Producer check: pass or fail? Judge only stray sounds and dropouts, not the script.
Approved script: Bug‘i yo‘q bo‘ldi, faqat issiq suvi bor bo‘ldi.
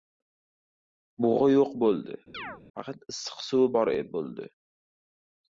fail